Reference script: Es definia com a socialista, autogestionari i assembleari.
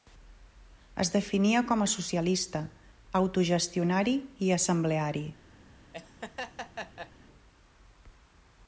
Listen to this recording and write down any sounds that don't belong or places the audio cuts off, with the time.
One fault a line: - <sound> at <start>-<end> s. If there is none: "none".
- laugh at 5.9-7.1 s